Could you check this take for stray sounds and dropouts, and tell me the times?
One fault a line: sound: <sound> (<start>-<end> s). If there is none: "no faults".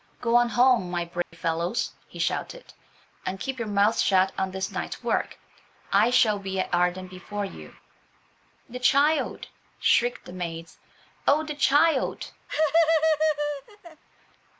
sound: dropout (1.2-1.3 s)
sound: laugh (12.5-14.0 s)